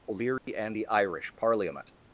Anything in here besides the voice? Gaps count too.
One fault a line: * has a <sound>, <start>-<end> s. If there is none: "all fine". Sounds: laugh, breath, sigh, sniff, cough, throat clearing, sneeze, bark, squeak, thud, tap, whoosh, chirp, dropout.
* has a dropout, 0.4-0.5 s